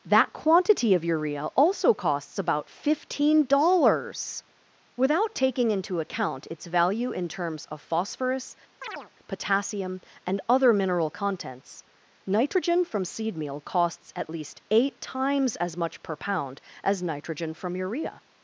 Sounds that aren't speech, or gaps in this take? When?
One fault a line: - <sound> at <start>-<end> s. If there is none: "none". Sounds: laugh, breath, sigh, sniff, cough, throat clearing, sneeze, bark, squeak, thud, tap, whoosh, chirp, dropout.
- chirp at 8.8-9.1 s